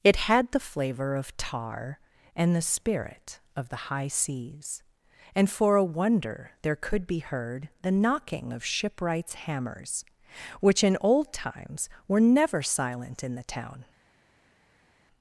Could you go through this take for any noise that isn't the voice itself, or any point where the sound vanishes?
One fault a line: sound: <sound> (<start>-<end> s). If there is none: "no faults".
no faults